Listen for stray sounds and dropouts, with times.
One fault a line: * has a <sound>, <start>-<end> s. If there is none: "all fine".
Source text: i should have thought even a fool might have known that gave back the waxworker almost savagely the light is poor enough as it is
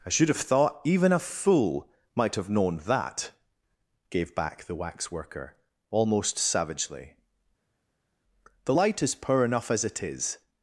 all fine